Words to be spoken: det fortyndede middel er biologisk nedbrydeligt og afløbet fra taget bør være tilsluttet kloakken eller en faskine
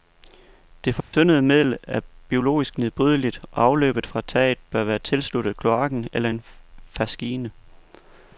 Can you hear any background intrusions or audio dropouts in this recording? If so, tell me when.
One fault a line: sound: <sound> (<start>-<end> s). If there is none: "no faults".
sound: dropout (1.0-1.1 s)